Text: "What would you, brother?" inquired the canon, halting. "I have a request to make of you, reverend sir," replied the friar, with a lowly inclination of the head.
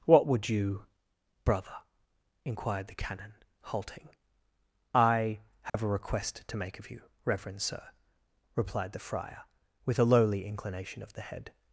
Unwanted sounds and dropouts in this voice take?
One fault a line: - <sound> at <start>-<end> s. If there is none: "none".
- dropout at 5.7-5.7 s